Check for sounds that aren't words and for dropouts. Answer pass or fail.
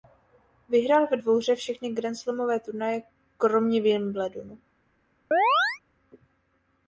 fail